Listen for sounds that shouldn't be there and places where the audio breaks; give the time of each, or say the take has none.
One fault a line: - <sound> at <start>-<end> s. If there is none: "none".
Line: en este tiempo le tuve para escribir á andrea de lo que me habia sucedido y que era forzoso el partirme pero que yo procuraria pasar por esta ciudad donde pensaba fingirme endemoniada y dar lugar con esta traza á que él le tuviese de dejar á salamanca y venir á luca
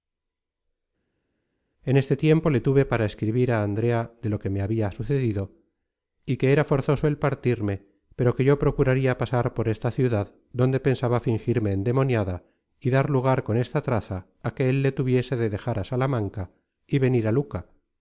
none